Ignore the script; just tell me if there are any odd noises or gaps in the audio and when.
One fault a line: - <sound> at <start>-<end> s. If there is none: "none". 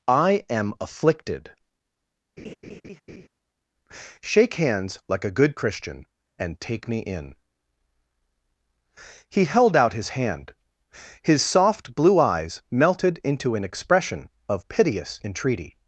- laugh at 2.4-3.3 s